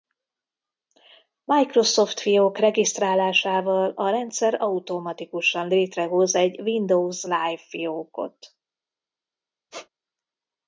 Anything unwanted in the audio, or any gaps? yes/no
yes